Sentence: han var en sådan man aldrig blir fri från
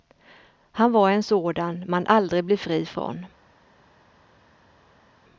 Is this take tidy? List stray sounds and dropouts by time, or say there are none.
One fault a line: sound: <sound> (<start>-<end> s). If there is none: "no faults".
no faults